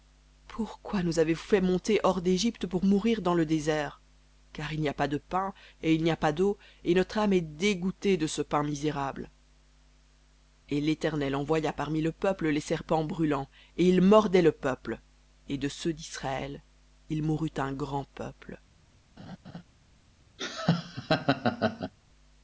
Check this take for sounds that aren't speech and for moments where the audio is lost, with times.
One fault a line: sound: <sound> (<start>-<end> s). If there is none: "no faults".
sound: laugh (19.2-19.6 s)
sound: laugh (20.4-21.9 s)